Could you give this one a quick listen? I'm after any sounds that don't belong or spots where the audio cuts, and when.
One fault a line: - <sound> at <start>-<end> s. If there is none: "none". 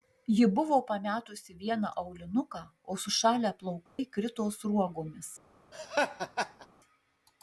- dropout at 3.9-4.0 s
- laugh at 5.7-6.7 s